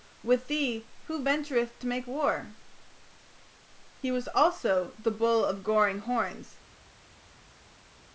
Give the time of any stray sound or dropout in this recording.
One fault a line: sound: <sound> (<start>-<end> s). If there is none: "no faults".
no faults